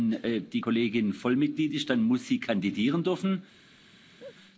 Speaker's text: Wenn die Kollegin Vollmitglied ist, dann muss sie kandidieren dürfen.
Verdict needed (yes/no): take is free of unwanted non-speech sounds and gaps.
no